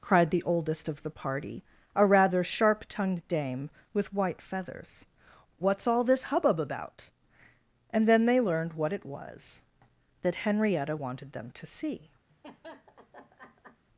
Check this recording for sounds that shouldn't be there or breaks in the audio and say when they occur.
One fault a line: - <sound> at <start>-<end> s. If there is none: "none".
- laugh at 12.3-13.8 s